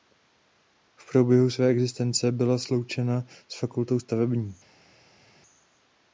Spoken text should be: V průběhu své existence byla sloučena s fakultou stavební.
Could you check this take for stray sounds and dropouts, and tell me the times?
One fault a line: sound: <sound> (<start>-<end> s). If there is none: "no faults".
no faults